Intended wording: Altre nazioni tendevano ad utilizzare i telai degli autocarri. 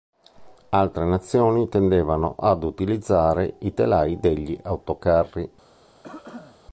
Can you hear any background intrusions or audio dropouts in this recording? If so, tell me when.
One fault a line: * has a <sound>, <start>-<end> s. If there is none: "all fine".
* has a cough, 6.0-6.6 s